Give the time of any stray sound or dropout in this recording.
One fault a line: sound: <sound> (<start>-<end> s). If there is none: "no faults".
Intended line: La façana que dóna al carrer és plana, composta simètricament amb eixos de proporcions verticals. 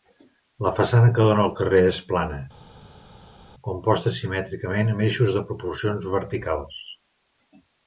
no faults